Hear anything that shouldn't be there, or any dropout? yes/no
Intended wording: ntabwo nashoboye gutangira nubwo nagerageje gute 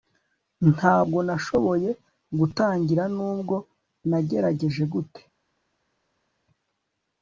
no